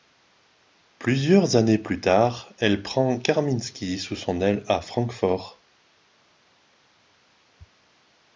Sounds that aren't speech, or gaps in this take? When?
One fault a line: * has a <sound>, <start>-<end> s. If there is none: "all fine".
all fine